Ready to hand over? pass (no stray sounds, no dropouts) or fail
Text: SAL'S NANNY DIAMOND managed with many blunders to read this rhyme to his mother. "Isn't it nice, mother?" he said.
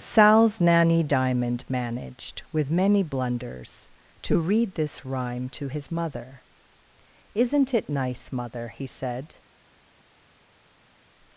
pass